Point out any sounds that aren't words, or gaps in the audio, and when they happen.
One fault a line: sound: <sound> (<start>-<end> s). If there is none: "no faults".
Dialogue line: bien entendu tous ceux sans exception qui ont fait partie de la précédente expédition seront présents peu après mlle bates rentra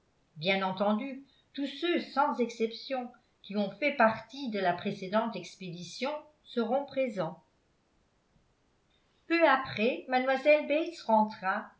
no faults